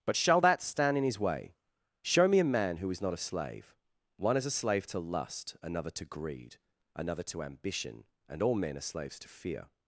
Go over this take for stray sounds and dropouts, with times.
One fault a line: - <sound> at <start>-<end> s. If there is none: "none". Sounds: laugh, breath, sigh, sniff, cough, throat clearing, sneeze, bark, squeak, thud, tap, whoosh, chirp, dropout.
none